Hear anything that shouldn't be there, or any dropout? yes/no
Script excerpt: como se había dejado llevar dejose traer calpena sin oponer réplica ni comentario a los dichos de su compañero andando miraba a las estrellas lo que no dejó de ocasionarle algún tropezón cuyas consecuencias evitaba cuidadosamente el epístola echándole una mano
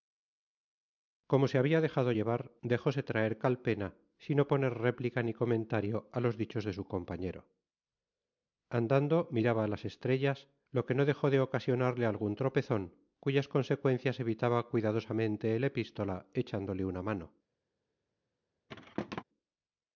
yes